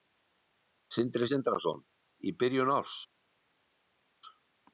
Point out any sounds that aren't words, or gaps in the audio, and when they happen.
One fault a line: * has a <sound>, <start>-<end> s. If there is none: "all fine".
all fine